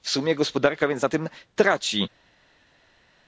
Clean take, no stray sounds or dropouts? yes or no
yes